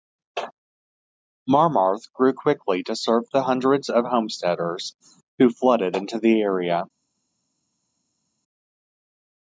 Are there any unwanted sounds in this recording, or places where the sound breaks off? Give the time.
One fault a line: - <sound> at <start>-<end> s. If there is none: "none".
none